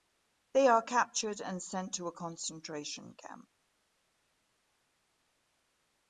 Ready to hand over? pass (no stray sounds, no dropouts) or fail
pass